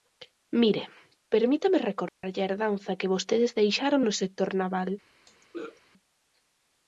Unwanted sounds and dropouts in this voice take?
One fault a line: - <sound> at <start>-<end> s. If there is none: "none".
- dropout at 2.1-2.2 s
- throat clearing at 5.3-5.8 s